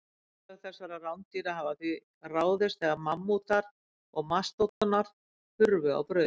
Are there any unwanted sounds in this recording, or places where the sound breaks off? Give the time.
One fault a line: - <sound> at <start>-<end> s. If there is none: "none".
- dropout at 4.7-4.8 s